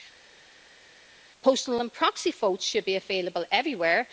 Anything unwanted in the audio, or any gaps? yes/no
no